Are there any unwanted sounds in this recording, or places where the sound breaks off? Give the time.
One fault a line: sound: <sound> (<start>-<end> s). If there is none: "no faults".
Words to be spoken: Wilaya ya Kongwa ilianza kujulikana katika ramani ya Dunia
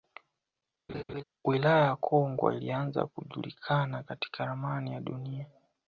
sound: laugh (0.9-1.2 s)